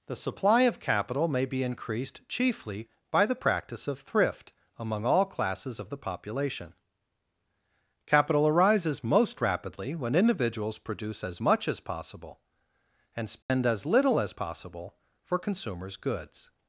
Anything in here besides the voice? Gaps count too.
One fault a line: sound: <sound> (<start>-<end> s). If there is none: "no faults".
sound: dropout (13.4-13.5 s)